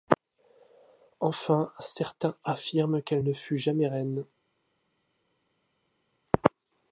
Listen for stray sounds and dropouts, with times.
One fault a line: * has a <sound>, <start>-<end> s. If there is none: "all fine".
all fine